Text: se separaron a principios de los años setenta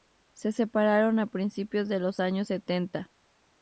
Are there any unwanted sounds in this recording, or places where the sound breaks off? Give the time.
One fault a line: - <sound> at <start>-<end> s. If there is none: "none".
none